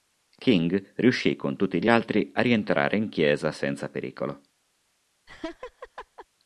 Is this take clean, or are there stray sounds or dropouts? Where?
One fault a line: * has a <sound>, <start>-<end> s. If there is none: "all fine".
* has a laugh, 5.3-6.3 s